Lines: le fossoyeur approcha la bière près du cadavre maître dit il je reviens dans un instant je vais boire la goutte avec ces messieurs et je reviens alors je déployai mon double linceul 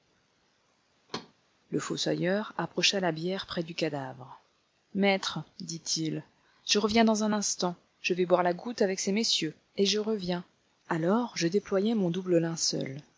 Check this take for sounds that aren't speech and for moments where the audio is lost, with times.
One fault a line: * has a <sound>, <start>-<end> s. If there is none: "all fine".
* has a thud, 1.1-1.3 s